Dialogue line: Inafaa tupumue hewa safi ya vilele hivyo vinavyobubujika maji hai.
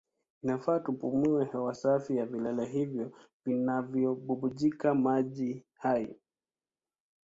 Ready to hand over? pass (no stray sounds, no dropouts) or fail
pass